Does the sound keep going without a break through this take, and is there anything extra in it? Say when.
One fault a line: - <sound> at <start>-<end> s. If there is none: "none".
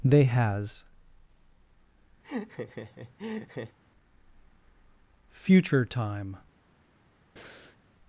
- laugh at 2.2-3.8 s
- breath at 7.4-7.8 s